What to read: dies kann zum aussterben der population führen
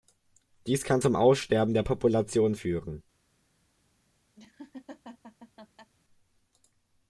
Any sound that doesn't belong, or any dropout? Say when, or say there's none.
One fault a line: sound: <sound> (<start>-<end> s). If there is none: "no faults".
sound: laugh (4.4-5.9 s)